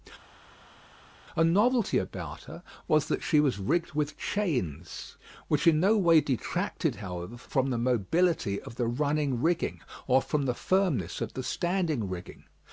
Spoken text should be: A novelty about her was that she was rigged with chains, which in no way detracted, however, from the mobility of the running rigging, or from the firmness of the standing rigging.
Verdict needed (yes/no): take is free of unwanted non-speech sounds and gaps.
yes